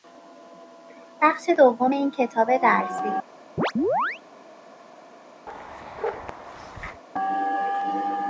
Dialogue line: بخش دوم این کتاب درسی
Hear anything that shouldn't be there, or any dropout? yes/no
yes